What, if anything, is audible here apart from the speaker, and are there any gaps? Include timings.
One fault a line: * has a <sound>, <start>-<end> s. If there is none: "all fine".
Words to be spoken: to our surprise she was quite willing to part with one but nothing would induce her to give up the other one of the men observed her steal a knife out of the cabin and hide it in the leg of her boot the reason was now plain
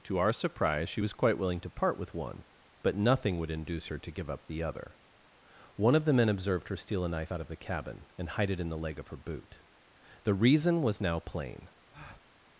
* has a breath, 11.9-12.3 s